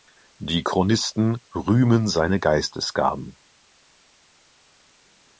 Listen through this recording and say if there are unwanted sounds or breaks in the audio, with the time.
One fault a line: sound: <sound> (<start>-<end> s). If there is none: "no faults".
no faults